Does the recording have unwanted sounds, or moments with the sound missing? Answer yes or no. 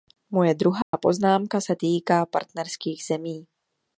yes